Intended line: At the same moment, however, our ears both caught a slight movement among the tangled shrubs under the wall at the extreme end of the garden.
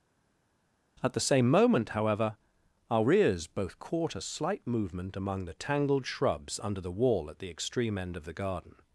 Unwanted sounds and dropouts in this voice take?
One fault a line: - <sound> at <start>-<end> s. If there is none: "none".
none